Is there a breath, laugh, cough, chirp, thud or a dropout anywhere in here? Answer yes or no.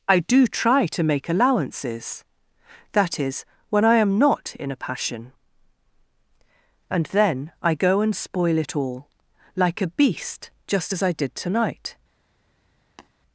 yes